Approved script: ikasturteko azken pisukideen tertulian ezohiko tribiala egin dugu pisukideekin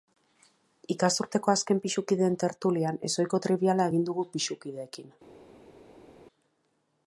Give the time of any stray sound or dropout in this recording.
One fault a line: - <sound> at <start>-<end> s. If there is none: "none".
none